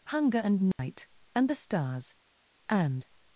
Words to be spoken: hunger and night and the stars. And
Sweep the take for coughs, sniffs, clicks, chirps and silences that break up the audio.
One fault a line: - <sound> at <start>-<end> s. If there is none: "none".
- dropout at 0.7-0.8 s